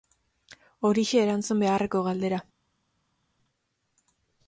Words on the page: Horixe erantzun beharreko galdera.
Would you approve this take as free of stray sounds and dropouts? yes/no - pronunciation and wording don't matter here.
yes